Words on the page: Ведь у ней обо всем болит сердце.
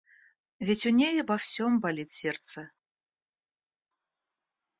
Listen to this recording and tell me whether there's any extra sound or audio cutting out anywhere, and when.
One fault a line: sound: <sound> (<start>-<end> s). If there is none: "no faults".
no faults